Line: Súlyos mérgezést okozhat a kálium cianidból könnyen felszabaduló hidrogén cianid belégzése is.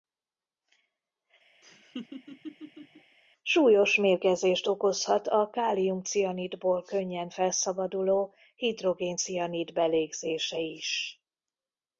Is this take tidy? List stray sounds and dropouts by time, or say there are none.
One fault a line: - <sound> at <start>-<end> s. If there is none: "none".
- laugh at 1.6-3.2 s